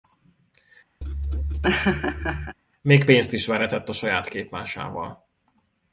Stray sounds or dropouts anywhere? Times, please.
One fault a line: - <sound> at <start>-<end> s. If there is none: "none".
- laugh at 1.0-2.6 s